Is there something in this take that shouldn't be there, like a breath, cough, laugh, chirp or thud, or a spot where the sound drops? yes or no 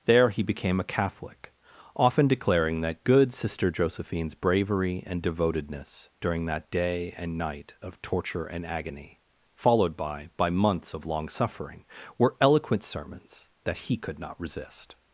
no